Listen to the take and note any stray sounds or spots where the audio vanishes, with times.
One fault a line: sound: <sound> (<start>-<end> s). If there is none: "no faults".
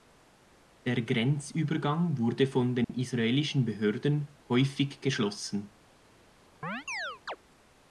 sound: dropout (2.8-2.9 s)
sound: chirp (6.6-7.4 s)